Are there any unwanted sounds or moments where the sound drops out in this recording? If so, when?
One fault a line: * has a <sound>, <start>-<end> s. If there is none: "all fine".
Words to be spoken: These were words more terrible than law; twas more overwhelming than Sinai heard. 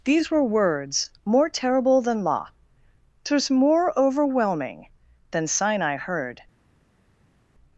all fine